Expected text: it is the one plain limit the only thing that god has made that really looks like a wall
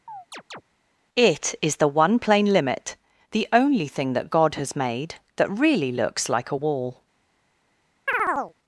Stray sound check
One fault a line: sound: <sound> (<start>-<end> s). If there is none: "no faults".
sound: chirp (0.1-0.6 s)
sound: chirp (8.1-8.5 s)